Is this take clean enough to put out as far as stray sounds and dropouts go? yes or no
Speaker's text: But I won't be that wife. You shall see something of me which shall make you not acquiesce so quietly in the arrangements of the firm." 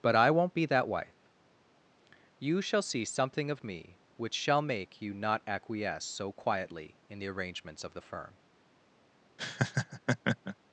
no